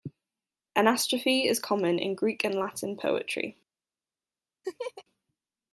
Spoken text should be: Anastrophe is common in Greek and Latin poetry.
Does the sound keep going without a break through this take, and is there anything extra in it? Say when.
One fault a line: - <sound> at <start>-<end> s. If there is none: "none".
- laugh at 4.6-5.0 s